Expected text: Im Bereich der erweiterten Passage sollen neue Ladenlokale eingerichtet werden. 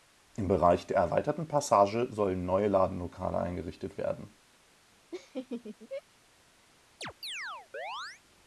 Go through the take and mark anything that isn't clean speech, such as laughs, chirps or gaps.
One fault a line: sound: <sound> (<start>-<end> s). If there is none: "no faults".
sound: laugh (5.1-6.0 s)
sound: chirp (7.0-8.2 s)